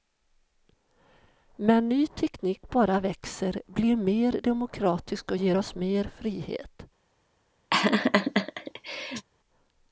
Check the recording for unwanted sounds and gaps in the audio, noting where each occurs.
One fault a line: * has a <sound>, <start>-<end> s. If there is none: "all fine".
* has a laugh, 7.7-9.3 s